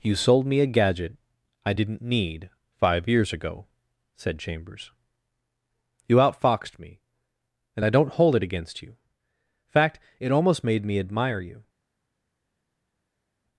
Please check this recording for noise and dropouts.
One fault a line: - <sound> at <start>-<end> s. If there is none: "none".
none